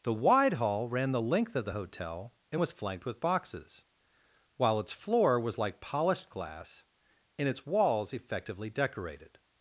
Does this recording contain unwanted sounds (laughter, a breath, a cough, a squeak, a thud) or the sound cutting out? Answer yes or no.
no